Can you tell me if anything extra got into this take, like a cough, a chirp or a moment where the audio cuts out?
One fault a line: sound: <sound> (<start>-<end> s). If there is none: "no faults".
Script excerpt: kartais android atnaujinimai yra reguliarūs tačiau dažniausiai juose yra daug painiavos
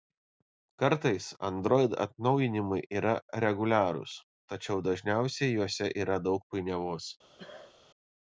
sound: cough (7.4-7.8 s)